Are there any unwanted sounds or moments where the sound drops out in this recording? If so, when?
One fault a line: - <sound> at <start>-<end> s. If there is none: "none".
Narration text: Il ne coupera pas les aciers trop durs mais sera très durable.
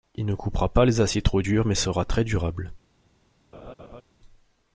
- laugh at 3.5-4.0 s